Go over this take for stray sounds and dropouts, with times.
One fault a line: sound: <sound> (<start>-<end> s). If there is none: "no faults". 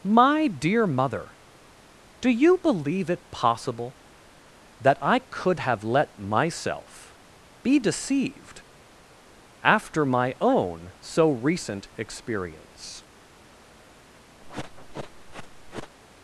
sound: sniff (14.4-15.9 s)